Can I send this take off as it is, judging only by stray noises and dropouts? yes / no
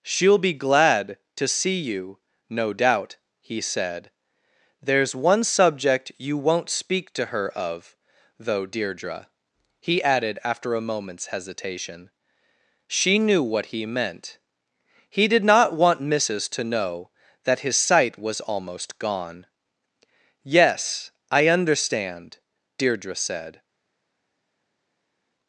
yes